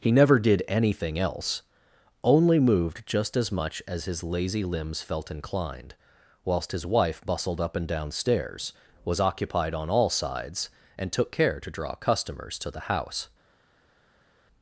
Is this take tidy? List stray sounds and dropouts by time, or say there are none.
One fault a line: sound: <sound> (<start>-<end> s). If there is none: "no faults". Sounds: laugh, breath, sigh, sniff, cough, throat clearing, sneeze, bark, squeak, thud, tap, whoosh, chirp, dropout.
no faults